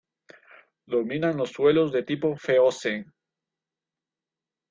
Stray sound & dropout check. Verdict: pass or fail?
pass